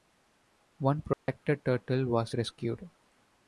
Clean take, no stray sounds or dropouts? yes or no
no